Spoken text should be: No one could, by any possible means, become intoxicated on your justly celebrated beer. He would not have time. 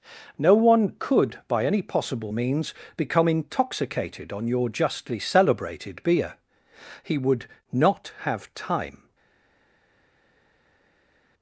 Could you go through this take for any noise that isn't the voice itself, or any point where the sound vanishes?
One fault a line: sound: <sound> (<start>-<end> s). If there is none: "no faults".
no faults